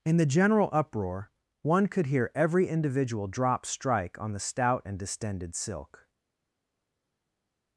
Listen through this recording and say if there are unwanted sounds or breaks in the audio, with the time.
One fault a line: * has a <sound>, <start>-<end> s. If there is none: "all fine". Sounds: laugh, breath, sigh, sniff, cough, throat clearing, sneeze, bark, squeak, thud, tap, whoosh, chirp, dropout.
all fine